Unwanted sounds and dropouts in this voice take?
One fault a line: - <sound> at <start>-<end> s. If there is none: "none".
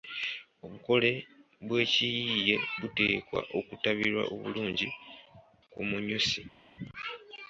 none